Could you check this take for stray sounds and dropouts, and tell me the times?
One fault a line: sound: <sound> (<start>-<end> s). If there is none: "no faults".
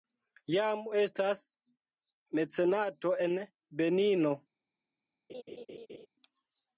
sound: laugh (5.3-6.1 s)